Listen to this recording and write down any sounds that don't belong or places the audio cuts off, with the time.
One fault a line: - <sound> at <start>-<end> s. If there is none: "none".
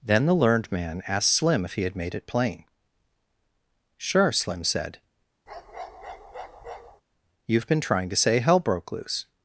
- bark at 5.5-7.0 s